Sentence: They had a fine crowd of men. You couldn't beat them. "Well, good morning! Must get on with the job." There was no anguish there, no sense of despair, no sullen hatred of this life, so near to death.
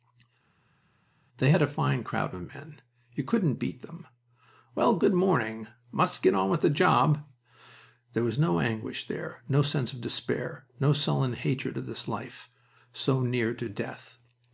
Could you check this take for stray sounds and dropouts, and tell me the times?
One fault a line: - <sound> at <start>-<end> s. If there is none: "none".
none